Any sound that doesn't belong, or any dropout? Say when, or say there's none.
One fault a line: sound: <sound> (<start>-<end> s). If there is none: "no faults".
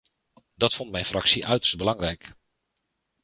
no faults